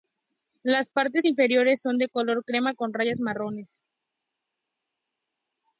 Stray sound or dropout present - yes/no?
no